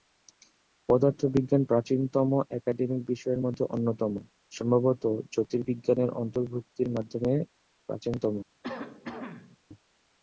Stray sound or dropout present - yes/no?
yes